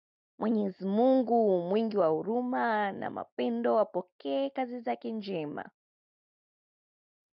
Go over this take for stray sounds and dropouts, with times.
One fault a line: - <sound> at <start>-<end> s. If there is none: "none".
none